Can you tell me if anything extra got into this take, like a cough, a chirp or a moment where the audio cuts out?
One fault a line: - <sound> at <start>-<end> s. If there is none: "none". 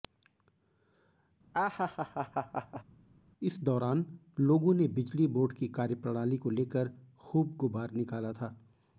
- laugh at 1.5-2.8 s